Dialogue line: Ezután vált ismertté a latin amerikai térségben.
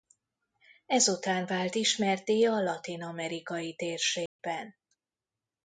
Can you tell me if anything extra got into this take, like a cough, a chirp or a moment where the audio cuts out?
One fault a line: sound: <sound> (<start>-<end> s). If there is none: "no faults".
sound: dropout (4.3-4.4 s)